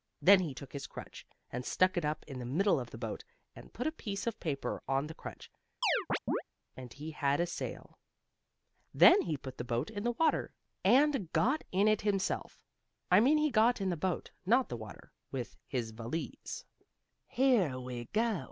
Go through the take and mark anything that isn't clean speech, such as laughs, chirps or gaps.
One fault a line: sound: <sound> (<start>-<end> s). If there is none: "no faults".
sound: chirp (5.8-6.4 s)